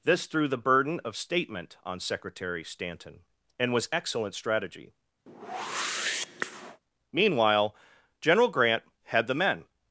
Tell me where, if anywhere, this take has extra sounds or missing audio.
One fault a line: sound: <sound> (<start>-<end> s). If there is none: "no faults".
sound: whoosh (5.3-6.8 s)